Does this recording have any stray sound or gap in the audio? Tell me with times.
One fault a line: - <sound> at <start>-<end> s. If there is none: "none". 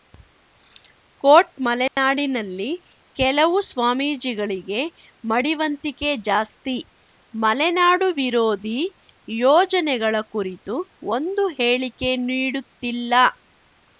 - dropout at 1.9-2.0 s